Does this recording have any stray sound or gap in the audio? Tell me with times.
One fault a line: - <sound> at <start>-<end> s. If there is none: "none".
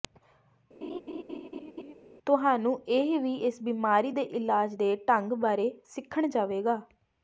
- laugh at 0.8-1.9 s